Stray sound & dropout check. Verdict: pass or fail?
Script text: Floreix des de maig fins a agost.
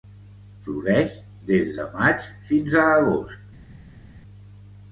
pass